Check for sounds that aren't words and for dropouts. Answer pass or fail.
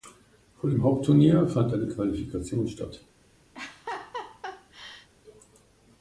fail